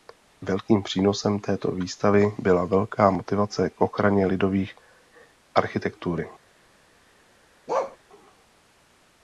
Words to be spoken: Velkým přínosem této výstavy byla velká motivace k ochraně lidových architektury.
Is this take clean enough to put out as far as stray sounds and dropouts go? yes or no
no